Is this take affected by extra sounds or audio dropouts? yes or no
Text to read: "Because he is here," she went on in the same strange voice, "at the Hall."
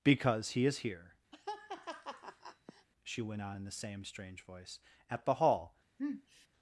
yes